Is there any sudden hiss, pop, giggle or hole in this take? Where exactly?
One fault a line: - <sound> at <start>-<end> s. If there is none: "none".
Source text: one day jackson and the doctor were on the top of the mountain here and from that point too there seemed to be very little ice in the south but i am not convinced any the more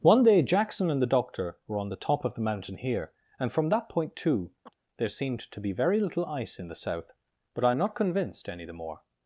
- chirp at 4.7-4.7 s